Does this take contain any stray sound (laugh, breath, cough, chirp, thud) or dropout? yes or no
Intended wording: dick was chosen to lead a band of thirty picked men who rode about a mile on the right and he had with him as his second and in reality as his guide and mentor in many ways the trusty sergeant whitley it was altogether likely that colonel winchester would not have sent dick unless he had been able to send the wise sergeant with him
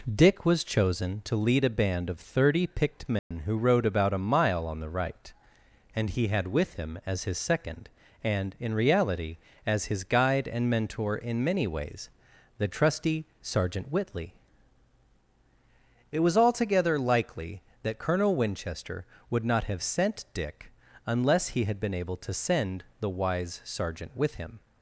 yes